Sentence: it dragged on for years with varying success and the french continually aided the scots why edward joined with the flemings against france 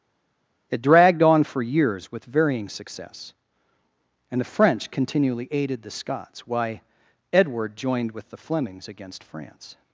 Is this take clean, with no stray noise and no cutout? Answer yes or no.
yes